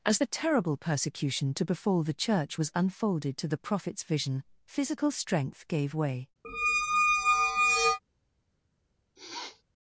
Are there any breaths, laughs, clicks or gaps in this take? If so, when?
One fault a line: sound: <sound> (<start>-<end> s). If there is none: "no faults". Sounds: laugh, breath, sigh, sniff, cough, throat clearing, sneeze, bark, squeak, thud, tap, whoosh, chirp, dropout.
sound: squeak (6.4-8.0 s)
sound: sniff (9.2-9.6 s)